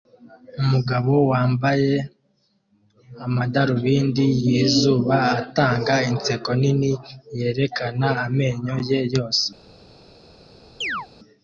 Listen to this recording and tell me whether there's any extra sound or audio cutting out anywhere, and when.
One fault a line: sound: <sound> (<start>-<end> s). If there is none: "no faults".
sound: chirp (10.8-11.1 s)